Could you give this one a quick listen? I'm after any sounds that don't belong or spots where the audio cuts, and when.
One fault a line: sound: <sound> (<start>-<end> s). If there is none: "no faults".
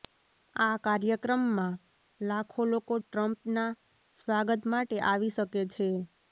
no faults